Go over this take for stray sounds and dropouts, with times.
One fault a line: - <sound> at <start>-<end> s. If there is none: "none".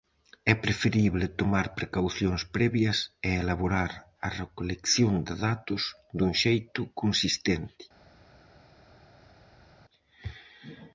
none